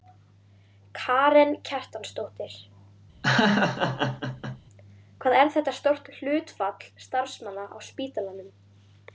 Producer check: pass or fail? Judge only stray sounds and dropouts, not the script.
fail